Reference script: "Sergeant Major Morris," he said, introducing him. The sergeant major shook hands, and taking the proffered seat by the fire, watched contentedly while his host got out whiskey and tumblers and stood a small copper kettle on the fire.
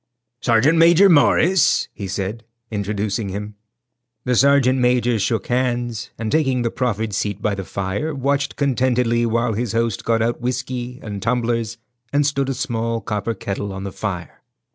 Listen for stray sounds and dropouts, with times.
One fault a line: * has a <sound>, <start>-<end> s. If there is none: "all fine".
all fine